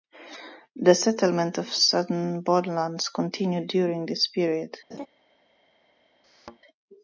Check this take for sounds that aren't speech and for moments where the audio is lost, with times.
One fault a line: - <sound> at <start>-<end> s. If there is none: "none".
- laugh at 4.9-5.1 s
- thud at 6.2-6.6 s